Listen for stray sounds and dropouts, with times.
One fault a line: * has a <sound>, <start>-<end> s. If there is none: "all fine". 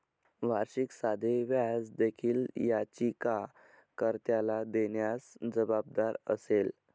all fine